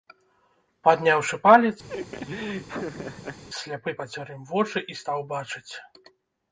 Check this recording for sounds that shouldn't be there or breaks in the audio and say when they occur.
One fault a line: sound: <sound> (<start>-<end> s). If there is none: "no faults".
sound: laugh (1.9-3.4 s)